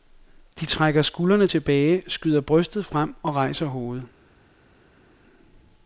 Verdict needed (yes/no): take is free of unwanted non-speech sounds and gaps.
yes